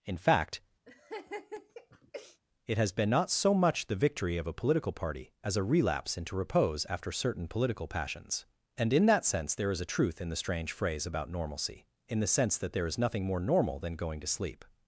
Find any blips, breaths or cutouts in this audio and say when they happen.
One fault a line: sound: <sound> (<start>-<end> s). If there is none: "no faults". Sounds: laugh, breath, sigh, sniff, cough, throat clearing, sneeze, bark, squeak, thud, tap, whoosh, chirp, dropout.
sound: laugh (0.9-2.4 s)